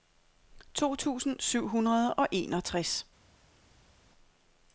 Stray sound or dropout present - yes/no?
no